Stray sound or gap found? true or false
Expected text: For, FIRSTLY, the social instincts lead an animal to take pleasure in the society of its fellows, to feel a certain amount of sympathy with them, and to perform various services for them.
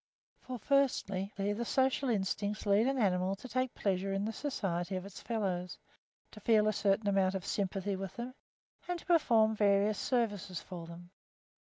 false